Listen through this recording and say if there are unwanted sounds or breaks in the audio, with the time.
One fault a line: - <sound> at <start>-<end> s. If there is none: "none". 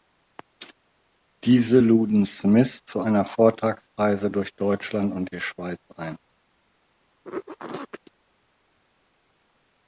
none